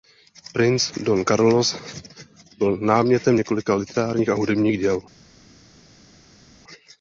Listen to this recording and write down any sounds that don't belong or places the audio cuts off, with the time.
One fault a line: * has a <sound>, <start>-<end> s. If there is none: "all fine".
all fine